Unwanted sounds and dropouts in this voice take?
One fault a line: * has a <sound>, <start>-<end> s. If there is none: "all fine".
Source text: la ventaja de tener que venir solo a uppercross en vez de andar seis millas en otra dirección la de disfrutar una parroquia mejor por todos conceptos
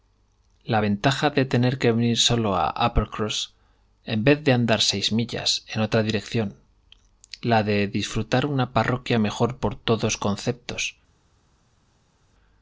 all fine